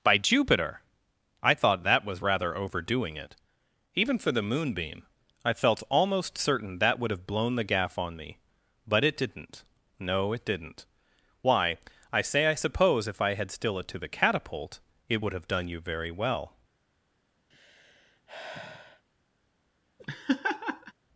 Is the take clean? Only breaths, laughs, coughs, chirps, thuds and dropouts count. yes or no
no